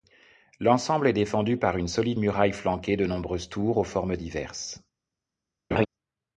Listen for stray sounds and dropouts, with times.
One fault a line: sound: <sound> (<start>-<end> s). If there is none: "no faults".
sound: laugh (5.7-5.9 s)